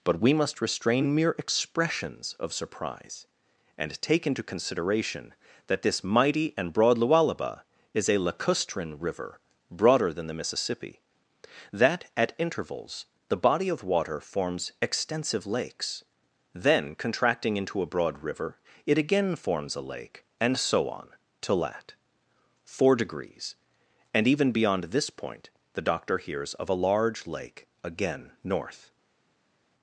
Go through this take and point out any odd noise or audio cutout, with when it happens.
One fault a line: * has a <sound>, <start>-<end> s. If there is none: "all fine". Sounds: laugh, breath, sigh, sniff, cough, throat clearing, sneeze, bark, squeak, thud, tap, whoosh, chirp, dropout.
all fine